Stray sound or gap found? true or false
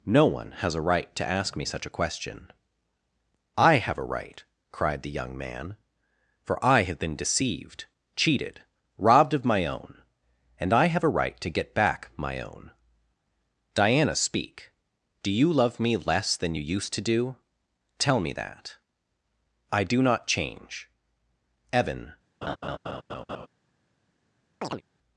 true